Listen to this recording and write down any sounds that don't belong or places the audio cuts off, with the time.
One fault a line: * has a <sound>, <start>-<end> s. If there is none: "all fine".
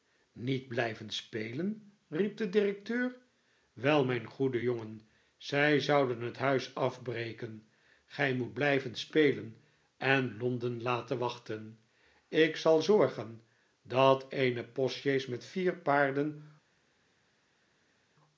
all fine